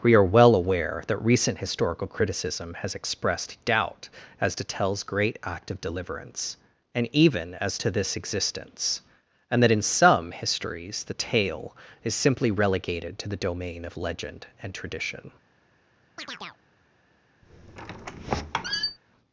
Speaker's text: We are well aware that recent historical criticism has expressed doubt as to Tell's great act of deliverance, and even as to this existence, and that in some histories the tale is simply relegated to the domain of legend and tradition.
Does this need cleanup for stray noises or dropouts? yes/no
yes